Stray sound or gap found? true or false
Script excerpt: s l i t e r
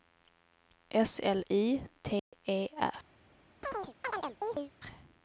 true